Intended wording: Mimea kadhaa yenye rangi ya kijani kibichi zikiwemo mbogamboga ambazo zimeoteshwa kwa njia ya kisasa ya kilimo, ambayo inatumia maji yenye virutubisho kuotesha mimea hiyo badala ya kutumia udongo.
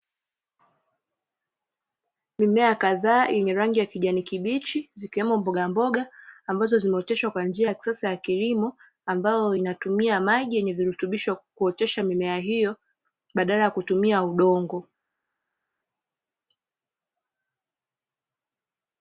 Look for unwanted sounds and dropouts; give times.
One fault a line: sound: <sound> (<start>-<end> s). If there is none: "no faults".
no faults